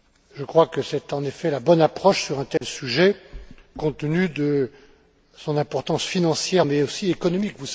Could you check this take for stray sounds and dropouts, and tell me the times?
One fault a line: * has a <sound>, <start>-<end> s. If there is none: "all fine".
* has a dropout, 2.6-2.6 s